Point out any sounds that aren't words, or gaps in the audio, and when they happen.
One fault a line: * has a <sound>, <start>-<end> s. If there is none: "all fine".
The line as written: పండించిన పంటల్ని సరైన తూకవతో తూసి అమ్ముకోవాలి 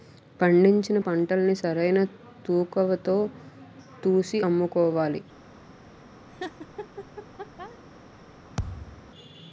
* has a laugh, 6.3-7.8 s
* has a thud, 8.6-9.1 s